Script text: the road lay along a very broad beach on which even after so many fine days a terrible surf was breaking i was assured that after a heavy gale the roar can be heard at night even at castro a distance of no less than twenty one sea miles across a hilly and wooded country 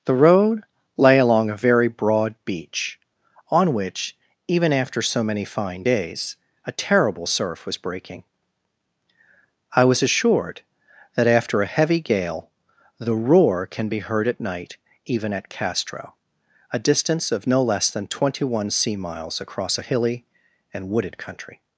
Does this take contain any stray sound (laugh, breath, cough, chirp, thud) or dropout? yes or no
no